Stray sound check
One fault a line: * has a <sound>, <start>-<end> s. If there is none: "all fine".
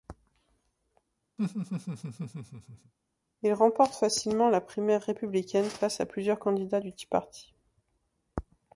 * has a laugh, 1.4-2.9 s